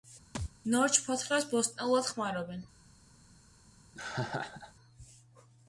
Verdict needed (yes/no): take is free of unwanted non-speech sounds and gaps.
no